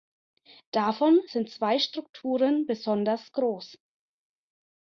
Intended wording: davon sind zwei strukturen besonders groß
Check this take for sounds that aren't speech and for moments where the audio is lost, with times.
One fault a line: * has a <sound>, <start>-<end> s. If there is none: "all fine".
all fine